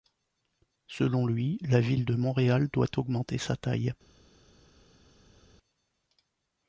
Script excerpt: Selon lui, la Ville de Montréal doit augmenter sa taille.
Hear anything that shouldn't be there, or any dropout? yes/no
no